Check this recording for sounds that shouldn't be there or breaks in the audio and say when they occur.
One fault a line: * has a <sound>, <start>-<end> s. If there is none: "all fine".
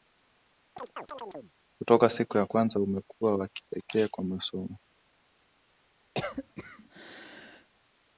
* has a chirp, 0.8-1.5 s
* has a cough, 6.1-7.7 s